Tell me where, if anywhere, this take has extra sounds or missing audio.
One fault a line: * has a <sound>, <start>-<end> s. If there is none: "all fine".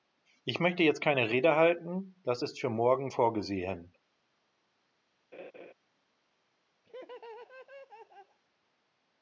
* has a laugh, 5.3-5.7 s
* has a laugh, 6.8-8.4 s